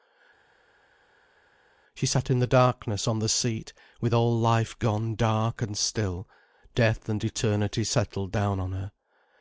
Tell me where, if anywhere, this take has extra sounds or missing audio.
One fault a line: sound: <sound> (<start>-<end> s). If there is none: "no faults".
no faults